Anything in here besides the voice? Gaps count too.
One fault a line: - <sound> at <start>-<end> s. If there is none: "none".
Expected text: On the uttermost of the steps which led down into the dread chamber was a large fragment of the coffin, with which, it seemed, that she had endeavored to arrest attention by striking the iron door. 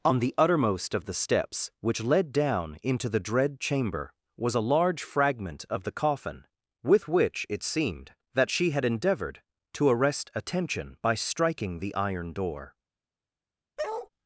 - bark at 13.8-14.1 s